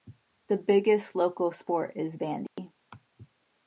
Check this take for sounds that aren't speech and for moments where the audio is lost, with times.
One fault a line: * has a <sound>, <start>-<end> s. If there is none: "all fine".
* has a dropout, 2.5-2.6 s